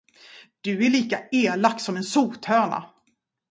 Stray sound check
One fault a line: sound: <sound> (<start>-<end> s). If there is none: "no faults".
no faults